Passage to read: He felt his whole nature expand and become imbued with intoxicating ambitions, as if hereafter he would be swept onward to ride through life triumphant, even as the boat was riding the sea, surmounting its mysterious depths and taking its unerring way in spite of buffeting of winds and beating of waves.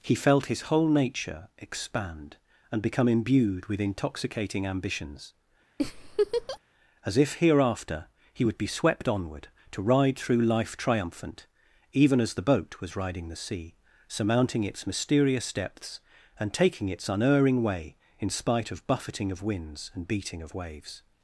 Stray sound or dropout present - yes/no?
yes